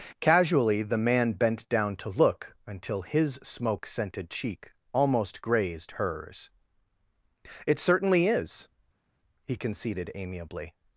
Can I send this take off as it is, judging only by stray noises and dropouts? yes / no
yes